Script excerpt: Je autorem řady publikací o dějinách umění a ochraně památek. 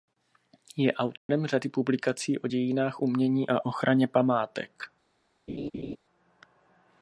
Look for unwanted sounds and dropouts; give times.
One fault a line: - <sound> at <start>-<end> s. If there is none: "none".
- dropout at 1.2-1.3 s
- laugh at 5.5-6.0 s